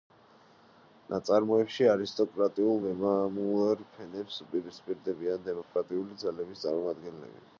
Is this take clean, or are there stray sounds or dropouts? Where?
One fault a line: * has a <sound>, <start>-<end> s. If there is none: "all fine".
* has a dropout, 5.6-5.8 s